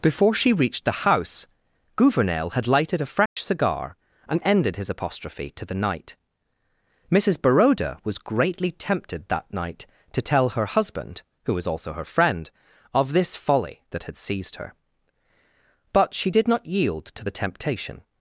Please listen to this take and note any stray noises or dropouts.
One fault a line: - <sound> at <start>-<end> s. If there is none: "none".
- dropout at 3.3-3.4 s